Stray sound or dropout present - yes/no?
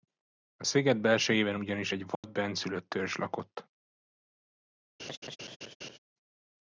yes